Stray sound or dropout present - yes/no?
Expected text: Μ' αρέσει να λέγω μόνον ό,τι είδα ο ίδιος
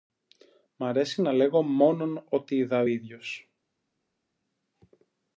no